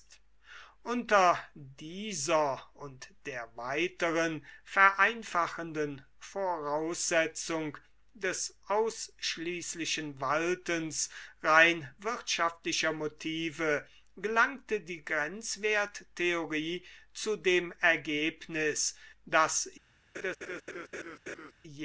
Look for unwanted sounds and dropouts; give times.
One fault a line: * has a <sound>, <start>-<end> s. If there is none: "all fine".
* has a laugh, 20.1-21.5 s